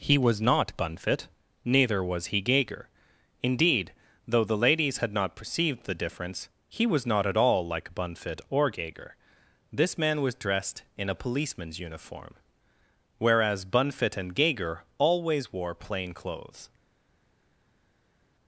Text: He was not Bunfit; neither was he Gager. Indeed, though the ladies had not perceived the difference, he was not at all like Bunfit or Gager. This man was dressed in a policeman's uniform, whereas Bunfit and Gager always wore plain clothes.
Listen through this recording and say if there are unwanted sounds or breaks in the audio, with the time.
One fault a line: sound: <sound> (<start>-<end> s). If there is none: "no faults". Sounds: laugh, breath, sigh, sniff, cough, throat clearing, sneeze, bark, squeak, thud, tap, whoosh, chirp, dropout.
no faults